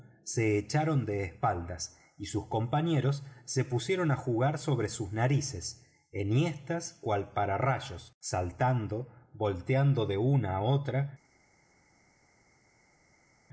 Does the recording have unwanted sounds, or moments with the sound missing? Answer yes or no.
no